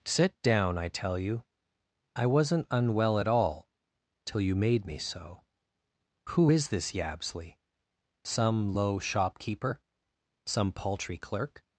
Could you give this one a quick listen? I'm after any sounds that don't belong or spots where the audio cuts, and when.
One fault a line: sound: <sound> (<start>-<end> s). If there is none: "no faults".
no faults